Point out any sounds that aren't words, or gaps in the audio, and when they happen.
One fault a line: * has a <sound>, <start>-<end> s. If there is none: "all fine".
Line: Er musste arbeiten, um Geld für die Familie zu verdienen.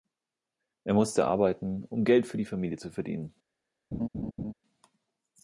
* has a laugh, 3.9-4.5 s